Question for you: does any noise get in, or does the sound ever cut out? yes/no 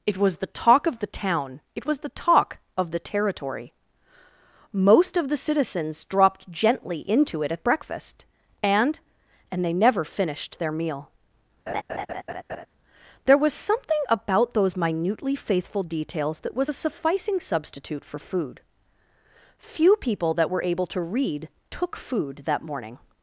yes